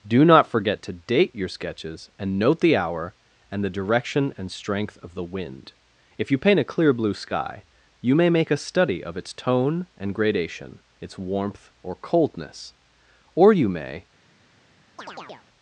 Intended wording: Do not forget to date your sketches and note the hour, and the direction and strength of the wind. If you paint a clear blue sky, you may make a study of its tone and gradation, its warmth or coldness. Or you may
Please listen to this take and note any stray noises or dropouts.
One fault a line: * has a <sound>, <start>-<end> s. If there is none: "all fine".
* has a chirp, 15.0-15.5 s